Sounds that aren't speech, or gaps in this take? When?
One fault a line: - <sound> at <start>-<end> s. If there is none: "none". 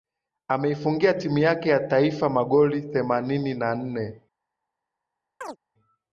- chirp at 5.4-5.6 s